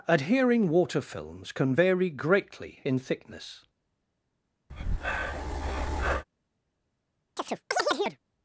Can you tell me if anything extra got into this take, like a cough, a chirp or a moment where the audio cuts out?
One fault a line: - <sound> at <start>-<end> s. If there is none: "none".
- breath at 4.7-6.2 s
- chirp at 7.4-8.2 s